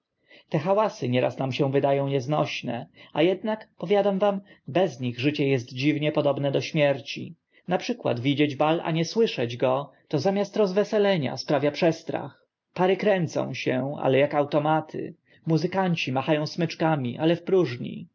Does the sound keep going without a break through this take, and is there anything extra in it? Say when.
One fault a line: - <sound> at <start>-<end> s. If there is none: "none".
none